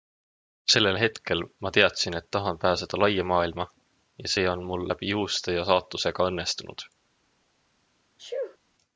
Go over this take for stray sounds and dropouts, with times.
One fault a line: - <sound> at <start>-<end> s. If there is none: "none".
- sneeze at 8.2-8.6 s